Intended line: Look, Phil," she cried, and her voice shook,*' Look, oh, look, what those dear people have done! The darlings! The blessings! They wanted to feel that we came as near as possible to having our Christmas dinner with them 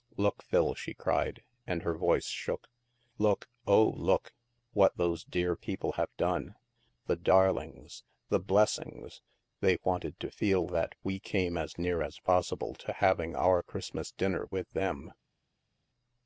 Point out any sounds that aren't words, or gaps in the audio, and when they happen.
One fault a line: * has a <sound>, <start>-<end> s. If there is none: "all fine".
all fine